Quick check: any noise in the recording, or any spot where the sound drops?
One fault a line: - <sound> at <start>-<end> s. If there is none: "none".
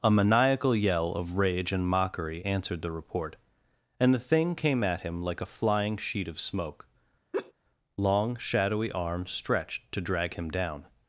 - laugh at 7.3-7.5 s